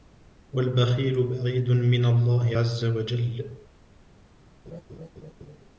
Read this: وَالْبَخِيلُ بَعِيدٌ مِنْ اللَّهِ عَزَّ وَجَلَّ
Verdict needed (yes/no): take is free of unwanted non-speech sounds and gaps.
no